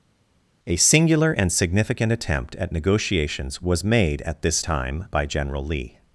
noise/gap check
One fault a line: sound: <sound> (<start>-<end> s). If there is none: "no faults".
no faults